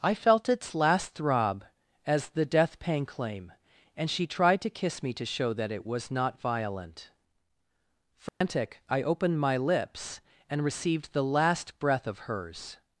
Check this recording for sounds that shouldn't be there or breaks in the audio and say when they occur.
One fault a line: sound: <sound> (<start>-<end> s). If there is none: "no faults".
sound: dropout (8.3-8.4 s)